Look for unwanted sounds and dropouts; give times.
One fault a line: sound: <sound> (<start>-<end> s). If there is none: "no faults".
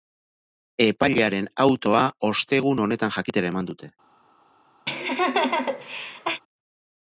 sound: laugh (4.9-6.4 s)